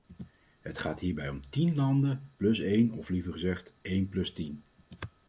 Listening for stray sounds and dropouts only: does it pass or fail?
pass